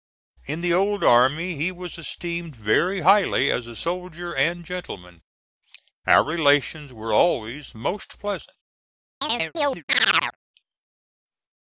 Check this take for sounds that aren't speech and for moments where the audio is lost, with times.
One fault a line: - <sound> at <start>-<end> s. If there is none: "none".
- chirp at 9.2-10.4 s